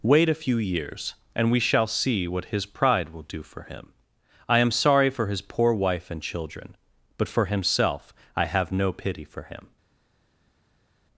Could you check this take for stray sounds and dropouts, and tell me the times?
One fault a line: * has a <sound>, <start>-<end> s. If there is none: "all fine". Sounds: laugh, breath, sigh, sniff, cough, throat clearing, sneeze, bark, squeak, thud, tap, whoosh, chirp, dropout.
all fine